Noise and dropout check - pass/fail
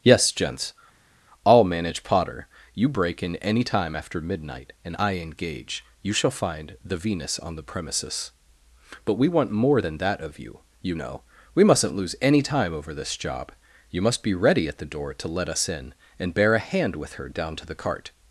pass